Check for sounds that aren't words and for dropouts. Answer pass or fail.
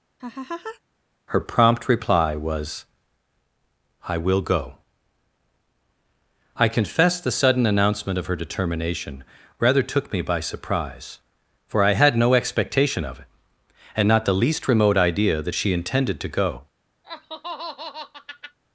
fail